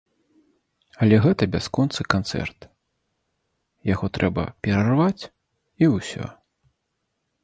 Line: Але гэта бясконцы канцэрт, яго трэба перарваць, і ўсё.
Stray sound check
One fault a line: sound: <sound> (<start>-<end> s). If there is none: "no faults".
no faults